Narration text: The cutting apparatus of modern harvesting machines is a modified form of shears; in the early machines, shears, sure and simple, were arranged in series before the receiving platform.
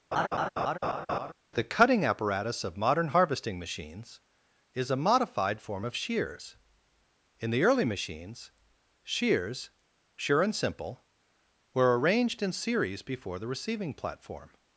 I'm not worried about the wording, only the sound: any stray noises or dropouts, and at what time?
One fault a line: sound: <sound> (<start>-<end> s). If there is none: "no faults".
sound: laugh (0.1-1.3 s)